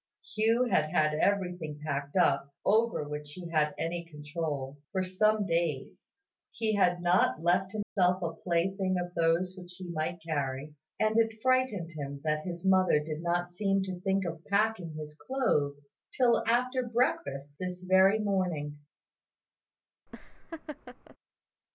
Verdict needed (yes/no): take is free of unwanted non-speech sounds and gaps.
no